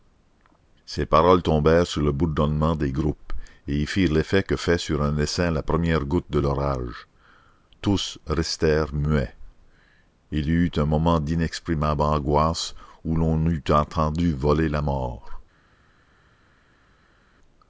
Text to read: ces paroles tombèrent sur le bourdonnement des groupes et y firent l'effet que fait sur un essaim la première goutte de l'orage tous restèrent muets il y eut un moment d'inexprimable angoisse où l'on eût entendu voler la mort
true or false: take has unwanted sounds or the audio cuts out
false